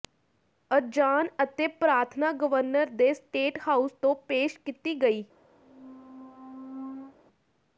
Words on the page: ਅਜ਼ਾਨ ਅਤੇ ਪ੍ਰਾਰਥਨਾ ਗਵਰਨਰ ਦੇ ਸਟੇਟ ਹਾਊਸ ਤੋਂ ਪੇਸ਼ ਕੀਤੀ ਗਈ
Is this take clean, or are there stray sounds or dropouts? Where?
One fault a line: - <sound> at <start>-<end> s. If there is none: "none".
- squeak at 5.6-7.2 s